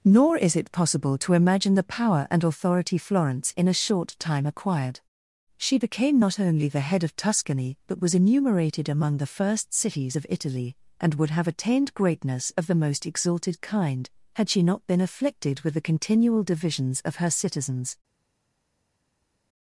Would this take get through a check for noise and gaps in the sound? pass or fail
pass